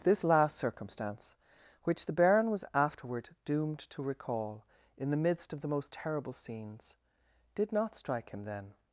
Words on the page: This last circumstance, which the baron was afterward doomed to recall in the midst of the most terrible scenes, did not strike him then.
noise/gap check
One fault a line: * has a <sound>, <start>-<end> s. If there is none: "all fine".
all fine